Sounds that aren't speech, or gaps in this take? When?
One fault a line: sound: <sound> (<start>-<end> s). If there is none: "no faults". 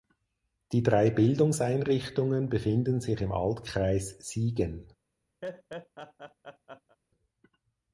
sound: laugh (5.4-7.0 s)